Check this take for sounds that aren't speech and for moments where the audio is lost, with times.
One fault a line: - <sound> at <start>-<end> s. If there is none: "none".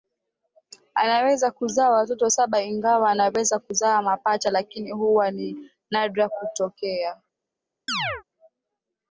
- chirp at 7.9-8.2 s